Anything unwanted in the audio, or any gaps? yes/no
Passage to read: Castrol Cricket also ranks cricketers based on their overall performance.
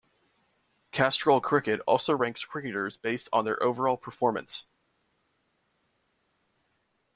no